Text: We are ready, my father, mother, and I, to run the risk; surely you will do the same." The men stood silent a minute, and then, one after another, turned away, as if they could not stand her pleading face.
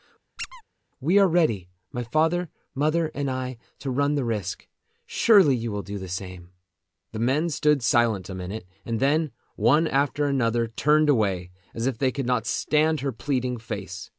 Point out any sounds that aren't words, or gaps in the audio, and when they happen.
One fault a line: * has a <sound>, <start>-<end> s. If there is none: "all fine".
* has a squeak, 0.4-0.6 s